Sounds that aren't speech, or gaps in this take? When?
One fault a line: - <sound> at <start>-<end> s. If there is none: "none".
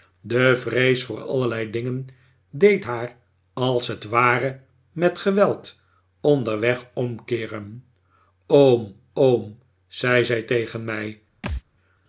- thud at 11.4-11.6 s